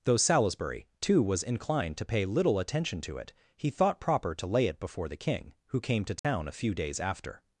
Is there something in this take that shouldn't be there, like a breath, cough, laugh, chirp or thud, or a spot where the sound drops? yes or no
yes